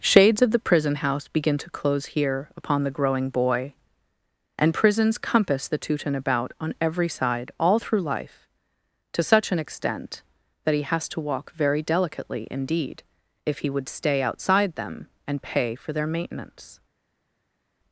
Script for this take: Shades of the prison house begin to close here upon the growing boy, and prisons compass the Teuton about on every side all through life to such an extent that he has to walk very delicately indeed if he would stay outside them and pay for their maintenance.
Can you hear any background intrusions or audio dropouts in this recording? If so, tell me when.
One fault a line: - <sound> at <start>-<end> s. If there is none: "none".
none